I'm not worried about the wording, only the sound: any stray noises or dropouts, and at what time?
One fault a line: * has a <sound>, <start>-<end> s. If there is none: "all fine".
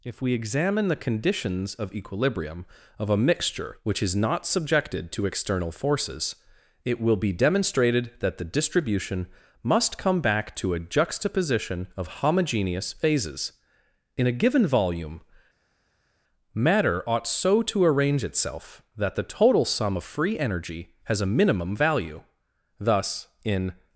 all fine